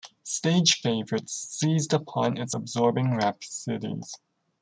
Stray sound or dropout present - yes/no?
no